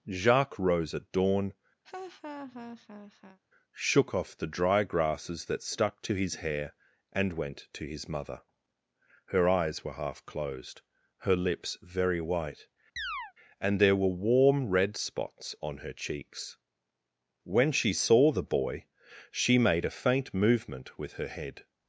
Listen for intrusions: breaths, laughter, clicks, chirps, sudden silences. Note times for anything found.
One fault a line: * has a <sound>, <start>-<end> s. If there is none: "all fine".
* has a laugh, 1.8-3.4 s
* has a chirp, 13.0-13.3 s